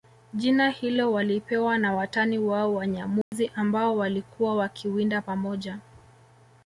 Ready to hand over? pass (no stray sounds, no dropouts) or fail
fail